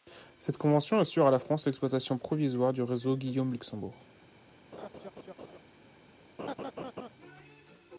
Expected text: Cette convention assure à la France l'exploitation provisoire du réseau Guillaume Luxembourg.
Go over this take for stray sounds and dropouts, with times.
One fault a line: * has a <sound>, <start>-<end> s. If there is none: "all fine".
* has a laugh, 4.7-5.6 s
* has a laugh, 6.4-7.1 s